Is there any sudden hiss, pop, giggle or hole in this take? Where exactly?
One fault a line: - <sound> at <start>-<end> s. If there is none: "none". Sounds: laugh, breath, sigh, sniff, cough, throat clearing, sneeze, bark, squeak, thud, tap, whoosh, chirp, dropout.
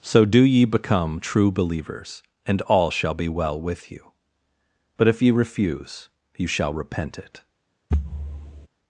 - thud at 7.9-8.7 s